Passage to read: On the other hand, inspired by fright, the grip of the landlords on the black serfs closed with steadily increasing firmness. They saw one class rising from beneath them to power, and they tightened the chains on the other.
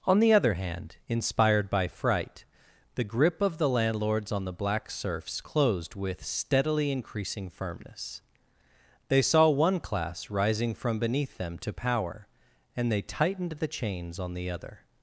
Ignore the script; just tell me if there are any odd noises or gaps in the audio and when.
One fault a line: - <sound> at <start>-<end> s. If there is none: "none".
none